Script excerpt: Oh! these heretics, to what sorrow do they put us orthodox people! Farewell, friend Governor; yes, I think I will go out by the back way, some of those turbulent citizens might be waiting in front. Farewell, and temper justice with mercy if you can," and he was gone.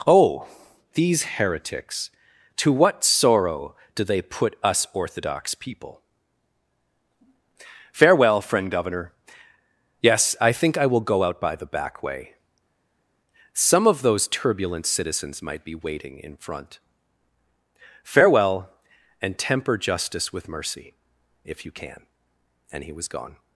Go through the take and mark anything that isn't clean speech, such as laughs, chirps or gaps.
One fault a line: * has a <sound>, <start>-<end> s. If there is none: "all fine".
all fine